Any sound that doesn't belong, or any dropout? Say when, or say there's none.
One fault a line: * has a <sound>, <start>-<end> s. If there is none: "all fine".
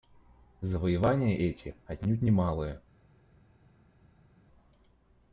all fine